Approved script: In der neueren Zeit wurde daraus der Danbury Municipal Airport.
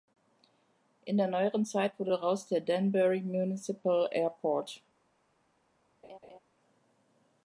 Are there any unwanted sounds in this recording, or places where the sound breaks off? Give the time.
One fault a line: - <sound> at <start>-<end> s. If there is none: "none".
- laugh at 6.0-6.4 s